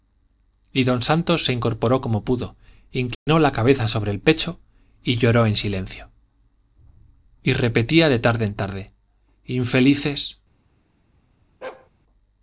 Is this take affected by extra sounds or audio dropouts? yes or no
yes